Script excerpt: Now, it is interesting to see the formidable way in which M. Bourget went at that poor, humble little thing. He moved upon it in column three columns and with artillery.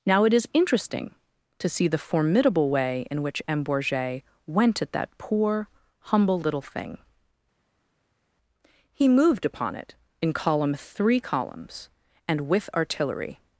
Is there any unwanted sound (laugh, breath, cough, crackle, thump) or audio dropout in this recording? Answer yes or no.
no